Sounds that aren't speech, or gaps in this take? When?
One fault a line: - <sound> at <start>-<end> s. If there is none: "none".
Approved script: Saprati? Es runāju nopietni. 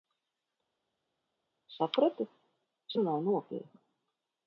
none